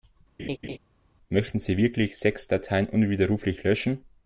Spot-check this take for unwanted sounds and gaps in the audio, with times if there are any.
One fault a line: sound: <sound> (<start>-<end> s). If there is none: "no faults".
sound: laugh (0.4-0.8 s)